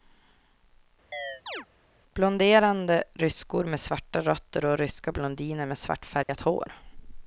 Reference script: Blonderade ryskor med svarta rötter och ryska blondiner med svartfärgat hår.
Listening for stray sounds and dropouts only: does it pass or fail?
fail